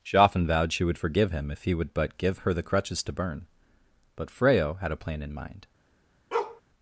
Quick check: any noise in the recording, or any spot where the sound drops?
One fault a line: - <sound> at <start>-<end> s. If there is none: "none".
- bark at 6.3-6.6 s